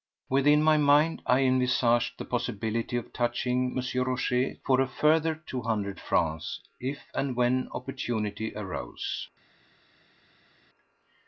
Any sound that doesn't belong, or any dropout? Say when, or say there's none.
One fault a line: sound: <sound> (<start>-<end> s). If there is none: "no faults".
no faults